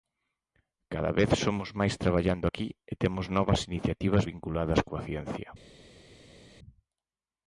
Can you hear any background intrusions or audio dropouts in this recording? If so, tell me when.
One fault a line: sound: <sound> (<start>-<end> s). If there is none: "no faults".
no faults